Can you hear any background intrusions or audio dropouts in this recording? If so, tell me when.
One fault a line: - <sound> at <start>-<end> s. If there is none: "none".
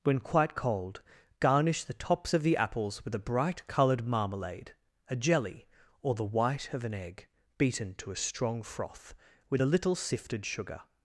none